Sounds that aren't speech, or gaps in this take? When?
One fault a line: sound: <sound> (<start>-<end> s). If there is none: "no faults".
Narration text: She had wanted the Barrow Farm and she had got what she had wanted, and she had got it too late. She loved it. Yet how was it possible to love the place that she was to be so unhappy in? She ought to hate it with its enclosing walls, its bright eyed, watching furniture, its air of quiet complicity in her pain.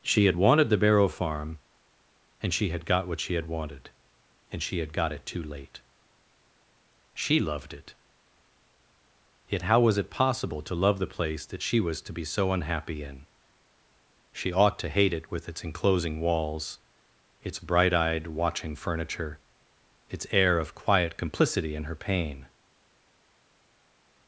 no faults